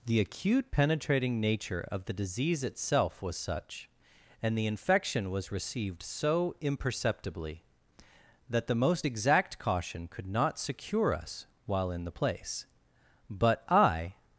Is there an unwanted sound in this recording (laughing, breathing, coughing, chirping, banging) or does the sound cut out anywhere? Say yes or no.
no